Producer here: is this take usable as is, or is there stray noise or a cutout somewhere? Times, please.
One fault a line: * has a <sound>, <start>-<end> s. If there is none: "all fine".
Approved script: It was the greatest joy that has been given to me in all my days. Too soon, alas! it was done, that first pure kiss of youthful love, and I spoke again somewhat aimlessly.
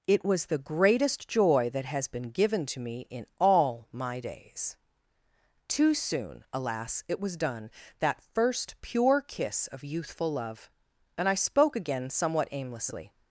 all fine